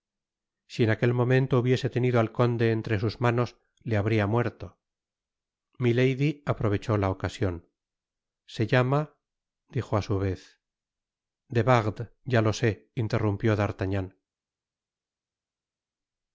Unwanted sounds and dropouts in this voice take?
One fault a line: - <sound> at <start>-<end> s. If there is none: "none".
none